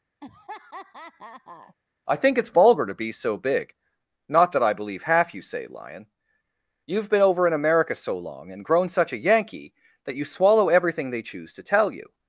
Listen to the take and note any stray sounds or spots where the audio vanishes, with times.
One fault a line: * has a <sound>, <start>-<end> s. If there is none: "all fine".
* has a laugh, 0.2-1.7 s